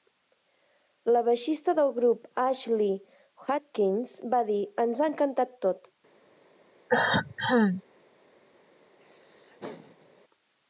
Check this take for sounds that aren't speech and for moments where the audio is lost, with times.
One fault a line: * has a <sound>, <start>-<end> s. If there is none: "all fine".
* has a cough, 6.9-7.8 s
* has a laugh, 9.0-10.2 s